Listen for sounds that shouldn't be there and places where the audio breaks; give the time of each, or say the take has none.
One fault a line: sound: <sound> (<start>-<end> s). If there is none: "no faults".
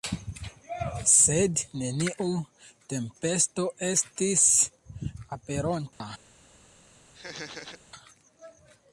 sound: dropout (5.9-6.0 s)
sound: laugh (7.1-7.8 s)